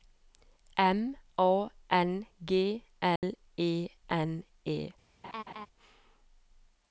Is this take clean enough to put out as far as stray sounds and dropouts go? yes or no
no